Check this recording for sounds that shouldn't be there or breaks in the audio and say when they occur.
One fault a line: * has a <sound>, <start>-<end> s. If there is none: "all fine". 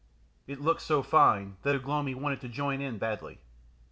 all fine